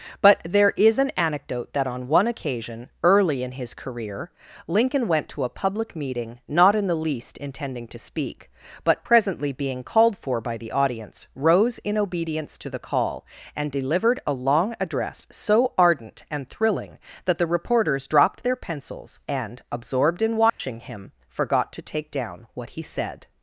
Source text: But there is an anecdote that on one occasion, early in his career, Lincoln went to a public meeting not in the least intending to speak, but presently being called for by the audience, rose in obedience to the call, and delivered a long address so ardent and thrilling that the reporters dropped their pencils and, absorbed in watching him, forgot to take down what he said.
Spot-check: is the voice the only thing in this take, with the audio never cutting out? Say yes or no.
no